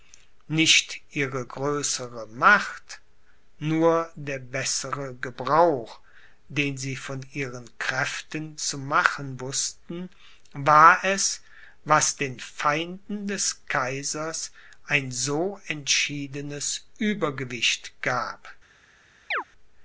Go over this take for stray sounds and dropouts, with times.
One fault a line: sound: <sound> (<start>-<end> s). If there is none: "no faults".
sound: chirp (19.3-19.4 s)